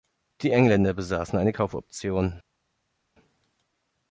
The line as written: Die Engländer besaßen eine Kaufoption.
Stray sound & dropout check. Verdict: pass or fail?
pass